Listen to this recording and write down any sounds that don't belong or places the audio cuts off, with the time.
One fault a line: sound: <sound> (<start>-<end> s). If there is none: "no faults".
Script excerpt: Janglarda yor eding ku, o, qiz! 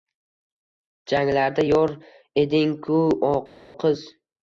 no faults